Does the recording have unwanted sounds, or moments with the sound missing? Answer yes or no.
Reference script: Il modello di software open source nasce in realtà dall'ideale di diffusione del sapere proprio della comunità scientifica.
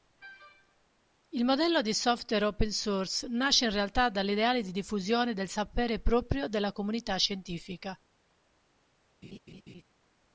yes